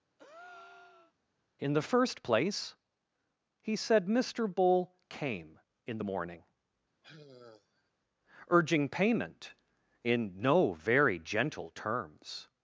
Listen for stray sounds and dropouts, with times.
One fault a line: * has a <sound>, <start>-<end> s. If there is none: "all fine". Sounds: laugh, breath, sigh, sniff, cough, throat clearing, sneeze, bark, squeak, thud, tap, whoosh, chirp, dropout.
* has a breath, 0.2-1.1 s
* has a sigh, 7.0-7.9 s